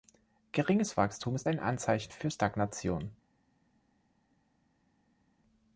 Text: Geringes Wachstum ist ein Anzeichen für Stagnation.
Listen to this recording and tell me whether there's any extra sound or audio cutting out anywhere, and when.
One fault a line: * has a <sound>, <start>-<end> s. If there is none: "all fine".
all fine